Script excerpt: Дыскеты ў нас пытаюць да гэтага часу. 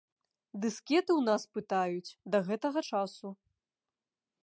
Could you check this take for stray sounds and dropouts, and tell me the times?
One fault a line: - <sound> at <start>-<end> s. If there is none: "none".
none